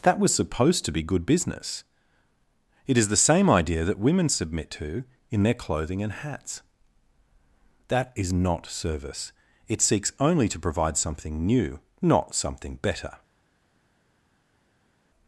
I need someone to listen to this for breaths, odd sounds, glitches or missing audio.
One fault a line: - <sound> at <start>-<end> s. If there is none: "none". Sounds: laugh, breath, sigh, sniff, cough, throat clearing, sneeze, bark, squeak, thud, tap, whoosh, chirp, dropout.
none